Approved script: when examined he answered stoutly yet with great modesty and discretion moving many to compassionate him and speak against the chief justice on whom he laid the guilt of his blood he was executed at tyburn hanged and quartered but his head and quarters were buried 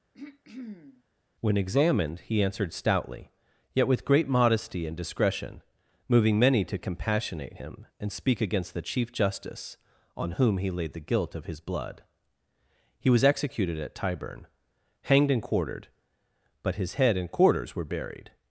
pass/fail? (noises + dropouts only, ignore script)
fail